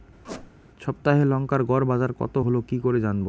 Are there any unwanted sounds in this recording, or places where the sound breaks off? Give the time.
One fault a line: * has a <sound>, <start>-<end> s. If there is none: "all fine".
* has a squeak, 0.2-0.5 s